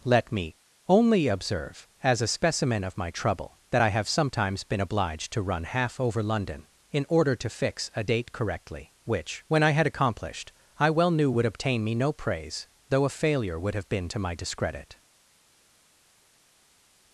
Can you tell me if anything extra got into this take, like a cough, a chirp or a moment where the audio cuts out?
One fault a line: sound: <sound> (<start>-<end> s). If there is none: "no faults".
no faults